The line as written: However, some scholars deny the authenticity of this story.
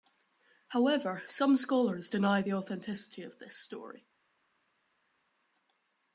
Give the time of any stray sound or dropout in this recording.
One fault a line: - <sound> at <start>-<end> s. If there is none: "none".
none